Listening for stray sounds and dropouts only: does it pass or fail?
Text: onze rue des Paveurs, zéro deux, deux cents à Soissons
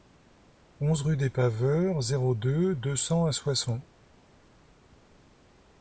pass